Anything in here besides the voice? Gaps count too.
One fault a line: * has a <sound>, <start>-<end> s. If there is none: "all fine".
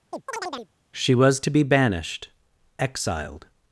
* has a chirp, 0.1-0.7 s